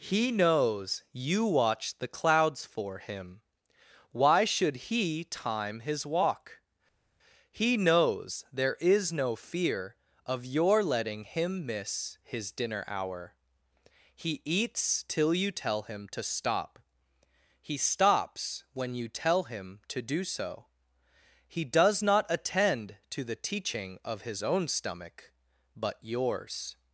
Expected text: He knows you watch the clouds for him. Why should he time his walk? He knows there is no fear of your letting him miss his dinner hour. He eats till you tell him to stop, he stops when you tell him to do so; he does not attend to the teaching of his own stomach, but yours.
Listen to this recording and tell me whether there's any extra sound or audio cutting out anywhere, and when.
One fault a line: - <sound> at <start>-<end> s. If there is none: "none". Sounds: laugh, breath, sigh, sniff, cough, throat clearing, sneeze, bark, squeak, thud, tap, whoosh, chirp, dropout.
none